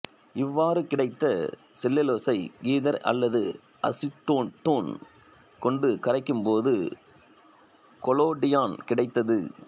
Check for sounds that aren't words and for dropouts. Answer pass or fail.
pass